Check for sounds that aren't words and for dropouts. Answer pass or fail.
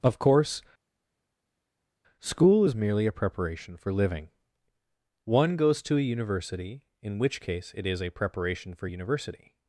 pass